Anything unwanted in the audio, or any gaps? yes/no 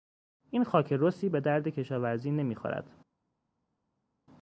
no